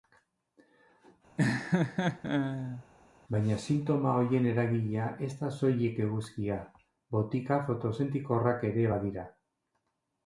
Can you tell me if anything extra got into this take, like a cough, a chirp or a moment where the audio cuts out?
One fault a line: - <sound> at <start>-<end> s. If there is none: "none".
- laugh at 1.4-2.8 s